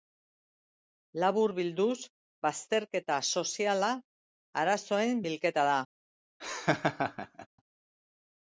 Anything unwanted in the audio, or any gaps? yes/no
yes